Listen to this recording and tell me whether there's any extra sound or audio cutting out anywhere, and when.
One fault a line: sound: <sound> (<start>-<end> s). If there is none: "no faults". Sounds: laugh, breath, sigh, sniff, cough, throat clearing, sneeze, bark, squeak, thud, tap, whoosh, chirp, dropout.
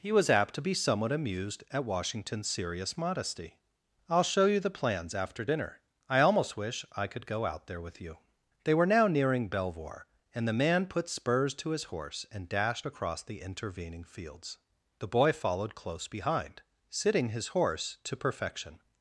no faults